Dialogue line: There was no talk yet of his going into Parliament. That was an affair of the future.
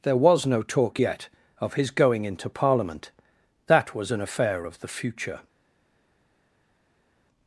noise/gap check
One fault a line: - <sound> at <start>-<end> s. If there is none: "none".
none